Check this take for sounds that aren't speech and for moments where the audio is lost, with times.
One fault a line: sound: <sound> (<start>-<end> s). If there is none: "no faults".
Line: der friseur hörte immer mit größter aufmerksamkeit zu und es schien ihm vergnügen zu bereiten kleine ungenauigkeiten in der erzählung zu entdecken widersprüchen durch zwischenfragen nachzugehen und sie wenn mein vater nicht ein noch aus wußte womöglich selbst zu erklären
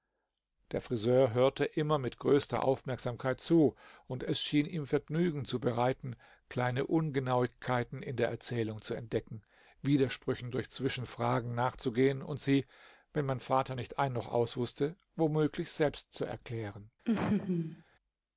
sound: laugh (17.1-17.8 s)